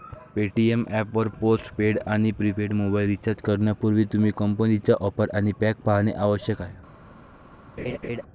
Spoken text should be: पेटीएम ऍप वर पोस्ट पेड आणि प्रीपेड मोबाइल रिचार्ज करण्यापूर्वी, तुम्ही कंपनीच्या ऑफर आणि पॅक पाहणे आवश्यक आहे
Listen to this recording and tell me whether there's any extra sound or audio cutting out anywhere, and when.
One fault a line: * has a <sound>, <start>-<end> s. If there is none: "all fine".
* has a laugh, 7.8-8.2 s